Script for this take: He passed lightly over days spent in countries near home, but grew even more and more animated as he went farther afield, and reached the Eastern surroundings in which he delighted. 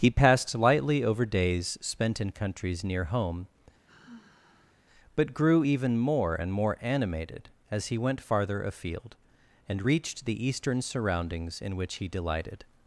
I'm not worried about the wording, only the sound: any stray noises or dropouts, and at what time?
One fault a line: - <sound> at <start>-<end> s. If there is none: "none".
- sigh at 3.9-4.8 s